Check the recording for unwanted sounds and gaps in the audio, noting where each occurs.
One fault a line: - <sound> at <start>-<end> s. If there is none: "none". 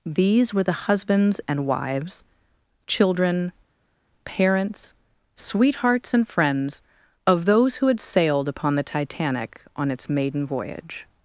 none